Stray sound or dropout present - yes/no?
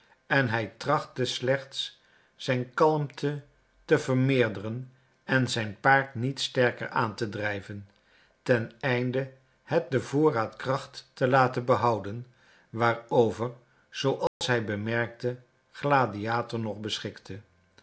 yes